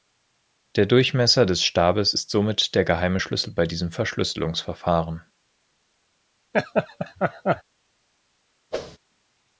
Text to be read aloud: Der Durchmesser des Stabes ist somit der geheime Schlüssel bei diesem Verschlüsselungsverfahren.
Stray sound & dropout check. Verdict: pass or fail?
fail